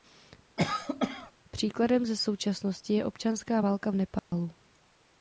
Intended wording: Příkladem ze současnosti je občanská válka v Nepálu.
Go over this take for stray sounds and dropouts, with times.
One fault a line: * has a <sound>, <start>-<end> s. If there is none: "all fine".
* has a cough, 0.6-1.3 s
* has a dropout, 4.2-4.3 s